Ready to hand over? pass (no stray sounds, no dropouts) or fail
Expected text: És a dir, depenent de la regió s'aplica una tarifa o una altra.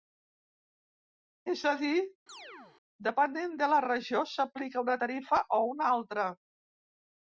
fail